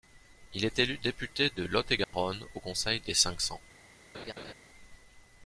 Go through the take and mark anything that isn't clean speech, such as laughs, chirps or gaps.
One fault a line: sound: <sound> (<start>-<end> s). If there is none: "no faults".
sound: dropout (2.0-2.1 s)
sound: laugh (4.1-4.5 s)